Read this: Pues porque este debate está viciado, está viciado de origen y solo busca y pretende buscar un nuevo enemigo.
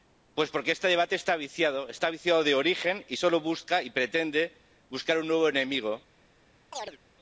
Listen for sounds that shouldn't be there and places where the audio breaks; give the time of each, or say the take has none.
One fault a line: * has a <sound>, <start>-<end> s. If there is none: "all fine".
* has a chirp, 6.7-7.0 s